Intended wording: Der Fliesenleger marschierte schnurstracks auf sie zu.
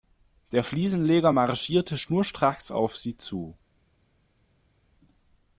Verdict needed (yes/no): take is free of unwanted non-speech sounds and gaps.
yes